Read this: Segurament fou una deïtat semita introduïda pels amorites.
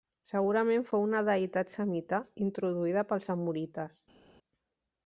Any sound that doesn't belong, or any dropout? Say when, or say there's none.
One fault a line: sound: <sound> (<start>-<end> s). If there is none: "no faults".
no faults